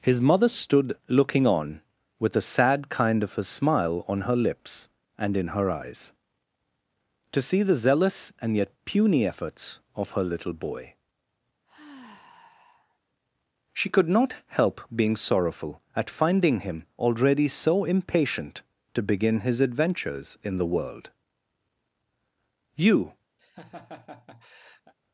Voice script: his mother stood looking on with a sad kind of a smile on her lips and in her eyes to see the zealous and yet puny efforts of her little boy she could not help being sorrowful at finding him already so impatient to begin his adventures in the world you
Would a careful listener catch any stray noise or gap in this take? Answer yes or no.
yes